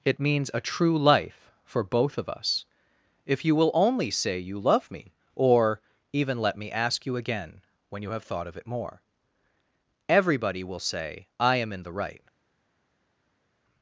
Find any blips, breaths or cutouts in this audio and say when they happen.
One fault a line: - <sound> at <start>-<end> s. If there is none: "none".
none